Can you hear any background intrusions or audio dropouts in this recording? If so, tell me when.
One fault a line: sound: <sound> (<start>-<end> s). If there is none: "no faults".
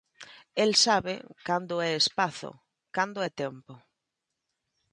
no faults